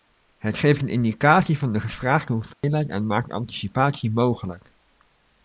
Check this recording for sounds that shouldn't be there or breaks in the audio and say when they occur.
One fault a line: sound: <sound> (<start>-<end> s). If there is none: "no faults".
sound: dropout (2.5-2.6 s)